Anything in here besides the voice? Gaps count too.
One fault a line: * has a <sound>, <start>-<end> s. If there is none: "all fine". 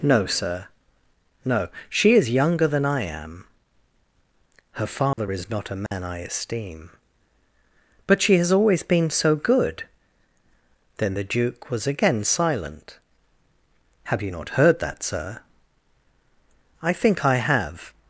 * has a dropout, 5.1-5.2 s
* has a dropout, 5.9-5.9 s